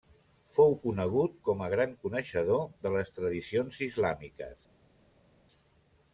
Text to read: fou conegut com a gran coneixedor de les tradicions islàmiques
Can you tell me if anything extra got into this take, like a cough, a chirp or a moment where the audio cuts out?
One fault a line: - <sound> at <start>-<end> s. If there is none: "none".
none